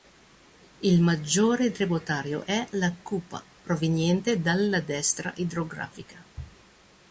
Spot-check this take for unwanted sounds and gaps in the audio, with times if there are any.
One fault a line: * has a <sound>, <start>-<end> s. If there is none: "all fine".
all fine